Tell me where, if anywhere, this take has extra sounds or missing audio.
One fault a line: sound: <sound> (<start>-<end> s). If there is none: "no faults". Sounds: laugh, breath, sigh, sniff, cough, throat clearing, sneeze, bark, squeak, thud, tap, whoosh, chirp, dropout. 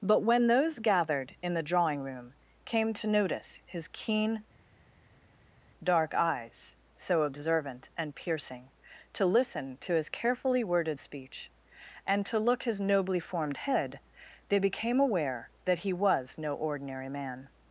no faults